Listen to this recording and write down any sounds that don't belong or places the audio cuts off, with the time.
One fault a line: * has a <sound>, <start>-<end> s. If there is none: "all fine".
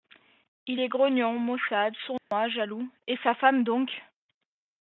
* has a dropout, 2.2-2.3 s